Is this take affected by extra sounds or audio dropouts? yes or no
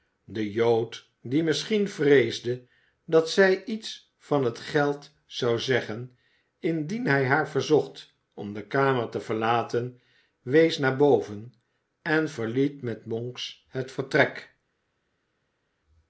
no